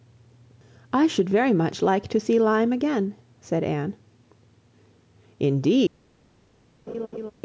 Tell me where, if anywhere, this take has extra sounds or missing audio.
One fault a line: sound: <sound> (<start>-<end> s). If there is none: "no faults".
sound: laugh (6.9-7.3 s)